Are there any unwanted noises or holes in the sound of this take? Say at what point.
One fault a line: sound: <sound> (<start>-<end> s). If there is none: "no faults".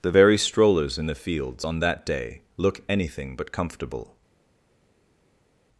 no faults